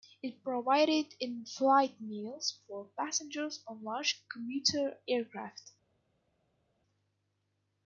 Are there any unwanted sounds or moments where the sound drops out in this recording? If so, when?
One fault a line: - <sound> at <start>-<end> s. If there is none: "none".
none